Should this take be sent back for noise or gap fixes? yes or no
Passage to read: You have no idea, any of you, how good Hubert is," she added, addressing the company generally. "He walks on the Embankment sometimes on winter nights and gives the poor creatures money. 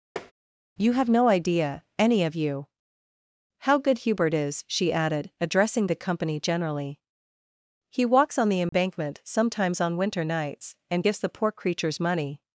yes